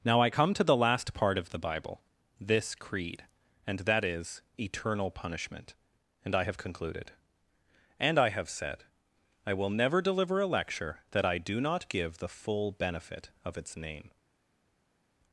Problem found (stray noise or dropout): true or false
false